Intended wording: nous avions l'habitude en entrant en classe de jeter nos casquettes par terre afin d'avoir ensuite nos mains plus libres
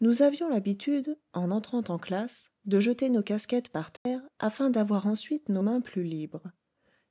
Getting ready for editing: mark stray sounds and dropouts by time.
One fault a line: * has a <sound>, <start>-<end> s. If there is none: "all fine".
* has a dropout, 4.0-4.1 s